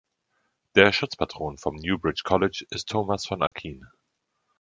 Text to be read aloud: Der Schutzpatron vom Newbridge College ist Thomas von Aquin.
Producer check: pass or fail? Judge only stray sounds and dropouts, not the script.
fail